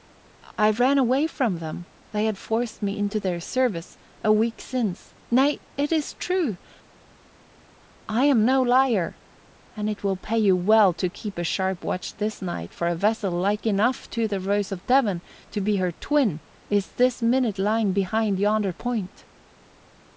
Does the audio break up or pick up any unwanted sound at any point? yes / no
no